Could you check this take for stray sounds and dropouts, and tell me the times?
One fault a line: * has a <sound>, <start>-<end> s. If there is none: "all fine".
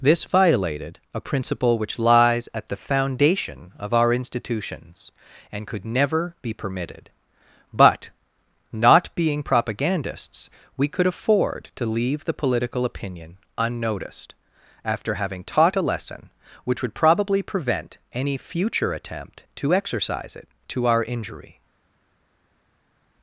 all fine